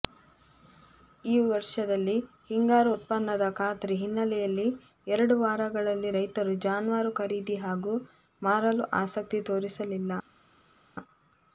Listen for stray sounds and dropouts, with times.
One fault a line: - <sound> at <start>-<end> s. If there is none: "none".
none